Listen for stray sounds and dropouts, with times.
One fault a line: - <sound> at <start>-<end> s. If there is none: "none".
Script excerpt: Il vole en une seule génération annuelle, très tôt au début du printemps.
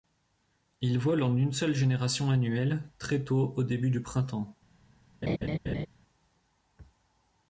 - laugh at 5.2-5.9 s